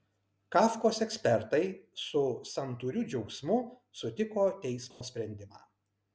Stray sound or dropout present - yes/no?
yes